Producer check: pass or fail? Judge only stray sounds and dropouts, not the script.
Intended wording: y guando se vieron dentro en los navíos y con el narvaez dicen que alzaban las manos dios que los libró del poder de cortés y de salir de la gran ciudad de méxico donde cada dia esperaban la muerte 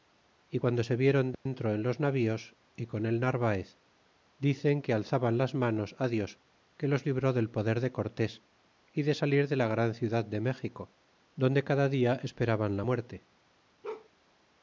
fail